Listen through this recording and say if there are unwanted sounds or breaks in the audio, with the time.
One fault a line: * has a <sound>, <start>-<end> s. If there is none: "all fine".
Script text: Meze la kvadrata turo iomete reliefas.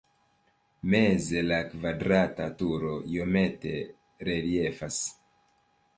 all fine